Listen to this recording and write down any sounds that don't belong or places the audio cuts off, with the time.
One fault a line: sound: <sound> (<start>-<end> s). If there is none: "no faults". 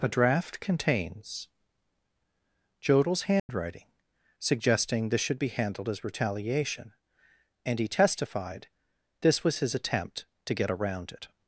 sound: dropout (3.4-3.5 s)